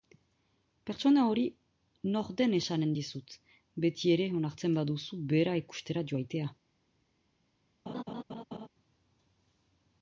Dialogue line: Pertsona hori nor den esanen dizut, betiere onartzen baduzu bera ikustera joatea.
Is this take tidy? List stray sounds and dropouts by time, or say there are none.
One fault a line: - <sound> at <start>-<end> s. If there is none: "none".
- laugh at 7.9-8.7 s